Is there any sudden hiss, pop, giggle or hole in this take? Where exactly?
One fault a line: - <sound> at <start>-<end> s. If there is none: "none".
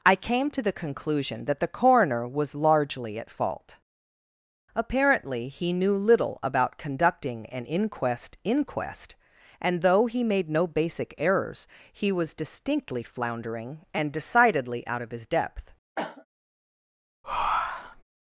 - cough at 16.0-16.3 s
- breath at 17.2-18.0 s